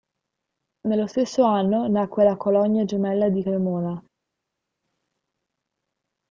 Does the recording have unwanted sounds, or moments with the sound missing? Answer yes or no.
no